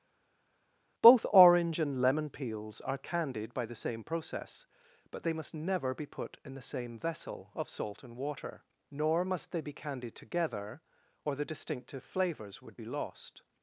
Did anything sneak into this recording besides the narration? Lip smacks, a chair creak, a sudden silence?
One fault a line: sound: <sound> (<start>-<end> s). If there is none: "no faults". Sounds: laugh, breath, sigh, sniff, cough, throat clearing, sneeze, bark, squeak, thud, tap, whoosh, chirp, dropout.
no faults